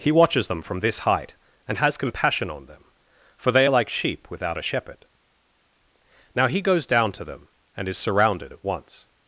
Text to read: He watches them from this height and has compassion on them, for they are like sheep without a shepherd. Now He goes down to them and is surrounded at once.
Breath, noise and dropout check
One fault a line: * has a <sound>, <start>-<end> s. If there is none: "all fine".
all fine